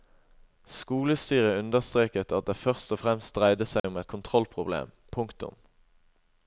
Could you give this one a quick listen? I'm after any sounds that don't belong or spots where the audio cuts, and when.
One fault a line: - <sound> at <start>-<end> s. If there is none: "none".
- dropout at 3.8-3.8 s